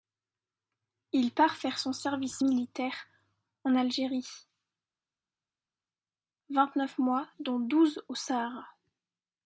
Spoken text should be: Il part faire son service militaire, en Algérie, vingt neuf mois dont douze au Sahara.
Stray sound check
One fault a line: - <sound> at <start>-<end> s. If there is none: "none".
none